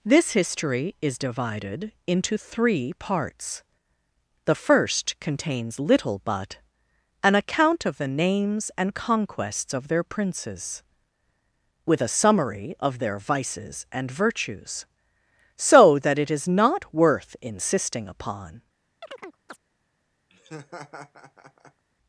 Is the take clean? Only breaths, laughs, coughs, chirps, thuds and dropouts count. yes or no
no